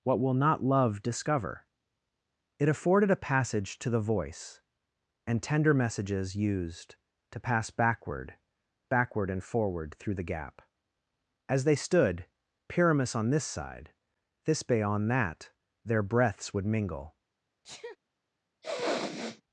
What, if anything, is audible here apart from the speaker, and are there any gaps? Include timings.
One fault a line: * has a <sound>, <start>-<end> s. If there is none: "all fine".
* has a sneeze, 17.6-18.0 s
* has a sniff, 18.6-19.4 s